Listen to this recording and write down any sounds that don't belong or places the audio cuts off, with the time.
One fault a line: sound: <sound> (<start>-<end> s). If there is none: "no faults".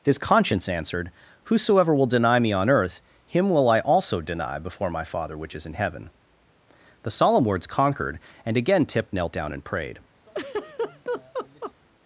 sound: laugh (10.3-11.7 s)